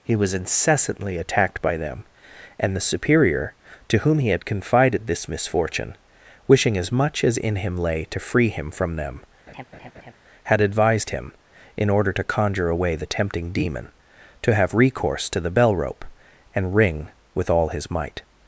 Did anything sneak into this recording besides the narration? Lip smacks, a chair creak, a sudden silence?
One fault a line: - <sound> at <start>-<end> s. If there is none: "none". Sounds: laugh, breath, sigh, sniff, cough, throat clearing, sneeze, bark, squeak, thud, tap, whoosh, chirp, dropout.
- laugh at 9.5-10.1 s